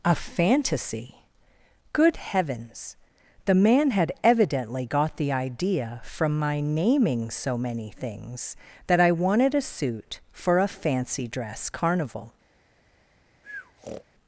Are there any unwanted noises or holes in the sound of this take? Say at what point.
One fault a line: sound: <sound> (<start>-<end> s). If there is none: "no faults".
sound: breath (13.4-14.0 s)